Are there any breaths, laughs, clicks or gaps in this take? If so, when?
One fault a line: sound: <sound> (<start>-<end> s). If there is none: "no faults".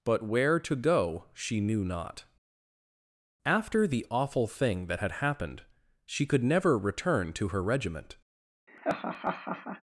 sound: laugh (8.7-9.8 s)